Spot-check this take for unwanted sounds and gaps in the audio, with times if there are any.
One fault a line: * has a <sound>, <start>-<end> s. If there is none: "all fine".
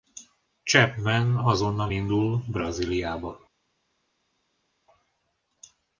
all fine